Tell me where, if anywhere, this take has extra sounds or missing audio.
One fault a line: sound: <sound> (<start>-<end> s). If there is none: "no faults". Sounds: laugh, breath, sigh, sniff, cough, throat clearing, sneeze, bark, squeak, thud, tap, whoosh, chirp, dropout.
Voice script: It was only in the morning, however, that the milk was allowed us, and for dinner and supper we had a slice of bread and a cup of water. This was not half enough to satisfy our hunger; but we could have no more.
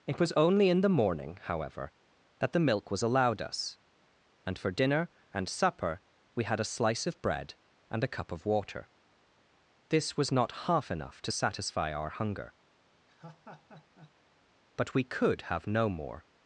sound: laugh (13.1-14.2 s)